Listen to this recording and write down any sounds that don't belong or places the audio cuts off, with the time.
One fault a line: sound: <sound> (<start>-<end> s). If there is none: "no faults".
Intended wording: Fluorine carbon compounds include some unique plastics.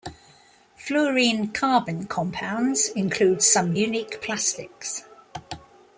no faults